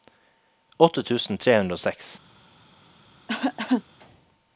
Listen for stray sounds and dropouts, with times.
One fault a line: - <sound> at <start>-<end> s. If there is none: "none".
- cough at 3.3-3.8 s